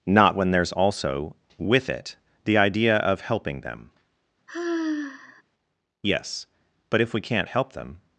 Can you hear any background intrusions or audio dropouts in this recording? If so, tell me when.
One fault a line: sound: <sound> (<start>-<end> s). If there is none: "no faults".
sound: sigh (4.5-5.4 s)